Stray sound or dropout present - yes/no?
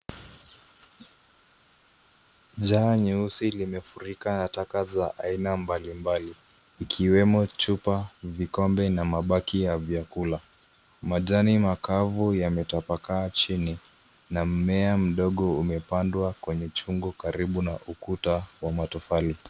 no